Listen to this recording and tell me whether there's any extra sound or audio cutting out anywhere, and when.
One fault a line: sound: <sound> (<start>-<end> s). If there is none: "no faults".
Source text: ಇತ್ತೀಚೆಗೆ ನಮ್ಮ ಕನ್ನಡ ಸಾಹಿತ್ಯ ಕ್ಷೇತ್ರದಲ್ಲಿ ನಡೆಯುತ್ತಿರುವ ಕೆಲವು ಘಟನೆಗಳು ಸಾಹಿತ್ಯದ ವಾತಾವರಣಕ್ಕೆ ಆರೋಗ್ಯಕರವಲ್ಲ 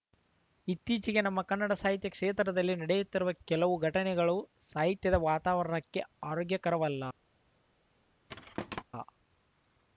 sound: thud (8.3-8.8 s)